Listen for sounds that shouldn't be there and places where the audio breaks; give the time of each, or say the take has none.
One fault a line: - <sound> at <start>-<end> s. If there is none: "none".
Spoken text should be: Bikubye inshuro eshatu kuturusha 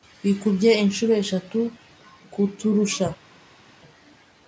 none